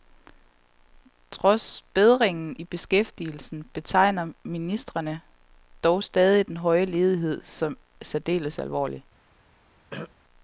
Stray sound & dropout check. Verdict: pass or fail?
fail